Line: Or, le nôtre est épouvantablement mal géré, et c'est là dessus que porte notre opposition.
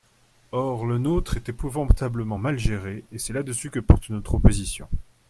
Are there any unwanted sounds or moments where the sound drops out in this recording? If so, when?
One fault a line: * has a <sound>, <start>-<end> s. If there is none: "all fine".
all fine